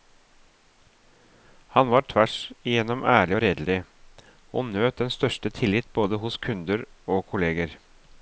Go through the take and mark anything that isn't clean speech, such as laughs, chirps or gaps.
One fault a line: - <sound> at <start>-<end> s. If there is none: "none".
none